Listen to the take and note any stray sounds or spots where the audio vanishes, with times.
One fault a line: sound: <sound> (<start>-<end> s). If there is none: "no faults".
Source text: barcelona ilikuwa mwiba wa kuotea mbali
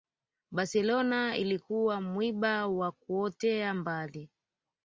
no faults